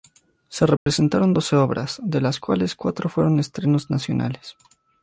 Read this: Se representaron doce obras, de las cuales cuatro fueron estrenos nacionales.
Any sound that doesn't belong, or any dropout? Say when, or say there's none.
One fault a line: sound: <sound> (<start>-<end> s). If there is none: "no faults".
sound: dropout (0.8-0.9 s)